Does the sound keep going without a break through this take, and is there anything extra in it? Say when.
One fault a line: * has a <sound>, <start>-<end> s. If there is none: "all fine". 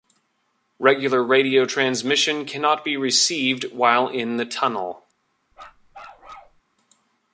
* has a bark, 5.5-6.6 s